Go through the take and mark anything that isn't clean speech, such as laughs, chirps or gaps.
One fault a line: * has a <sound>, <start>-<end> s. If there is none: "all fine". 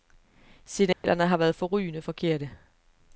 * has a dropout, 0.9-1.0 s